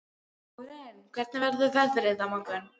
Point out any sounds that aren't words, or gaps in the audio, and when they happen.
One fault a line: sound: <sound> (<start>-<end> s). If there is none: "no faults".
no faults